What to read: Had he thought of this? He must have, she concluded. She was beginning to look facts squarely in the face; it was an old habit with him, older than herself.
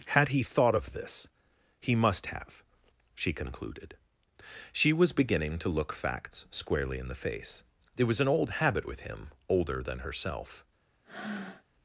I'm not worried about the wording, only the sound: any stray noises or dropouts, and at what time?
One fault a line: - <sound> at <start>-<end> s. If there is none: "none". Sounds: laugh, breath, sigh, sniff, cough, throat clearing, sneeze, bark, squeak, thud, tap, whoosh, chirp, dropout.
- breath at 11.0-11.6 s